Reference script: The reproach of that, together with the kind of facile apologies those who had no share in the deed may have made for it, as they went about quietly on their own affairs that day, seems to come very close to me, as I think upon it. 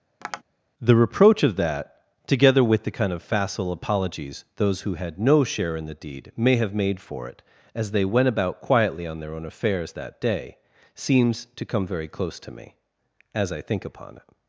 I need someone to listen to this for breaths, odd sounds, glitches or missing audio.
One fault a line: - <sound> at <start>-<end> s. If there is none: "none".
- tap at 0.2-0.4 s